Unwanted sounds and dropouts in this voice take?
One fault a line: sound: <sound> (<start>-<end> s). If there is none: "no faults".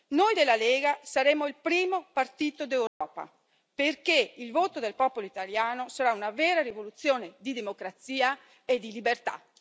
sound: dropout (2.9-3.0 s)